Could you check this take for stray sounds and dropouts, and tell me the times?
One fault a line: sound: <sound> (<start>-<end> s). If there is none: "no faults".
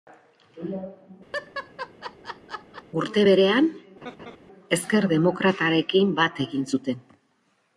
sound: laugh (1.3-2.8 s)
sound: laugh (4.0-4.4 s)